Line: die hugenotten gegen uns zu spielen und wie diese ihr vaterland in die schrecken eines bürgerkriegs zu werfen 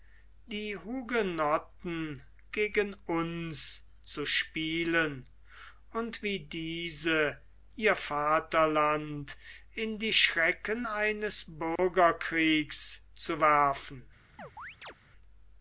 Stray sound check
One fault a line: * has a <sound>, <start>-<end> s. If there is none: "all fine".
* has a dropout, 11.8-11.8 s
* has a chirp, 14.4-14.9 s